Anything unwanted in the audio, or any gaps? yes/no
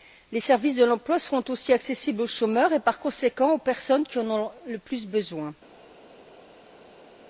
no